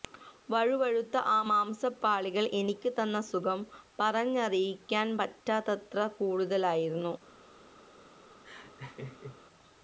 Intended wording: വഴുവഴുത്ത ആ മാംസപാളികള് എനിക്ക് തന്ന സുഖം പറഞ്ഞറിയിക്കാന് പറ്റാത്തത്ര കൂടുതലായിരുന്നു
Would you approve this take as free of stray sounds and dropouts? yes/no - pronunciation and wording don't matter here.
no